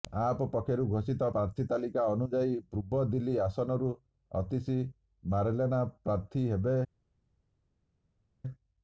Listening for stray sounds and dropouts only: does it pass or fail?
pass